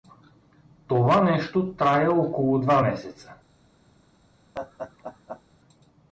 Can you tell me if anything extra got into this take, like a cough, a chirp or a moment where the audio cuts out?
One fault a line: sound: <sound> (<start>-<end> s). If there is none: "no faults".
sound: laugh (4.5-5.4 s)